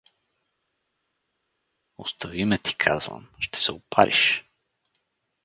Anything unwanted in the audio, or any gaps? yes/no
no